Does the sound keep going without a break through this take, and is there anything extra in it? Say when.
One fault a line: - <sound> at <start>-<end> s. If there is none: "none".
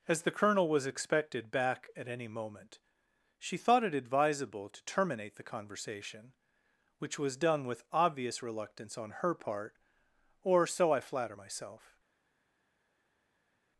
none